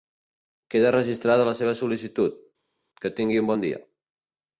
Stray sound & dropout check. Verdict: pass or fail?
pass